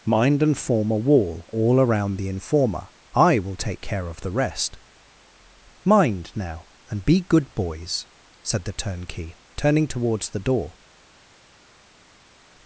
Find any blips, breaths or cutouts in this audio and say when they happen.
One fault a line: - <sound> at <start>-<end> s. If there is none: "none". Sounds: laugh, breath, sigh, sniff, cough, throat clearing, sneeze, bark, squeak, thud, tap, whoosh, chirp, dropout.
none